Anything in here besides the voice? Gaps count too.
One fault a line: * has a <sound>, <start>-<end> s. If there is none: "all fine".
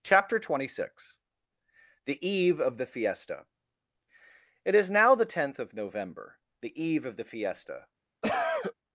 * has a cough, 8.2-8.7 s